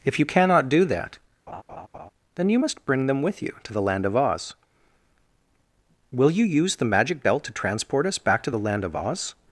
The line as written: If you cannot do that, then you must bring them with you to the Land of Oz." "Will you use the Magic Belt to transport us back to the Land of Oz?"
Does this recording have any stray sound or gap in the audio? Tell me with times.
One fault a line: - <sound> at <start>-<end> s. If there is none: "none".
- laugh at 1.5-2.1 s